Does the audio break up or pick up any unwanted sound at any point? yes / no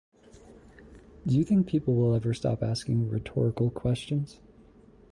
no